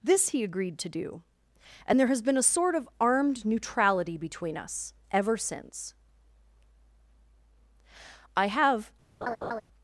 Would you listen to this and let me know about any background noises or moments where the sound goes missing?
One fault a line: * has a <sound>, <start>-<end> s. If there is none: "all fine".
* has a laugh, 9.2-9.6 s